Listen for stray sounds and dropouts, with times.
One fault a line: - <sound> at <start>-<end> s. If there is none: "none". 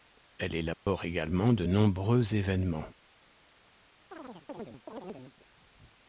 - dropout at 0.7-0.9 s
- chirp at 4.1-5.4 s